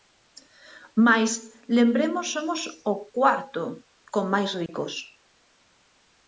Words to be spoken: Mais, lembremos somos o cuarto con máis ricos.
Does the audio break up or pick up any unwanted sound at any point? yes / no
yes